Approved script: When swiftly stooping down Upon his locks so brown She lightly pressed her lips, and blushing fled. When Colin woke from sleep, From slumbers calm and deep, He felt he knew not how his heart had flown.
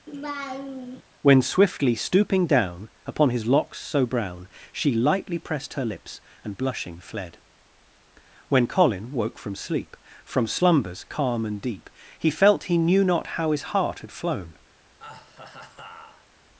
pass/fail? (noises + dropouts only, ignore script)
fail